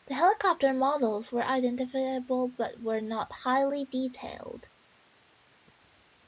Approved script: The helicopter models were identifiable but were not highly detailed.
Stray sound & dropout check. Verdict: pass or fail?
pass